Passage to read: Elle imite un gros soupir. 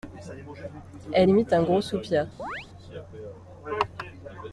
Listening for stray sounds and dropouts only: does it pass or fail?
fail